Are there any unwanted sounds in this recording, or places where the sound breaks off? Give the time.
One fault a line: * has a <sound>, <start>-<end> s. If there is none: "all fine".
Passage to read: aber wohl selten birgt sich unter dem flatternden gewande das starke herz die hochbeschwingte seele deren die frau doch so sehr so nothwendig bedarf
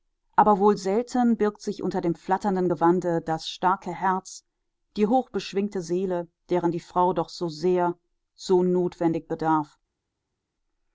all fine